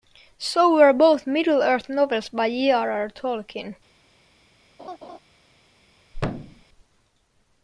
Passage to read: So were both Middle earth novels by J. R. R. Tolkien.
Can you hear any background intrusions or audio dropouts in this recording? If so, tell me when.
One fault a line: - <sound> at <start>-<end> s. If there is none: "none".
- laugh at 4.8-5.2 s
- thud at 6.1-6.6 s